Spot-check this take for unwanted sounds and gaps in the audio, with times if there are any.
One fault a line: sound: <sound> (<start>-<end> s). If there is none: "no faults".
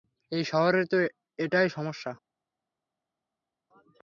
no faults